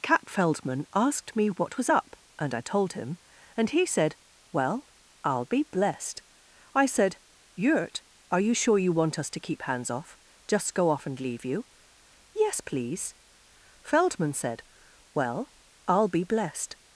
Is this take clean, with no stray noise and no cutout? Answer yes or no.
yes